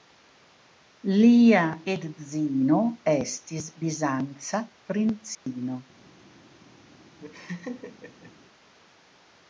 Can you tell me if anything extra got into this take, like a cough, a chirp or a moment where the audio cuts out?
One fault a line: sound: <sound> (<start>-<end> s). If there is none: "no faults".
sound: dropout (5.3-5.5 s)
sound: laugh (7.2-8.3 s)